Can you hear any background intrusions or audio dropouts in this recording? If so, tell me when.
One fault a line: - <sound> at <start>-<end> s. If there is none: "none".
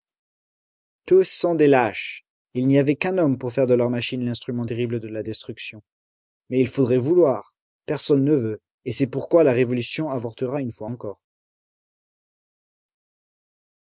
none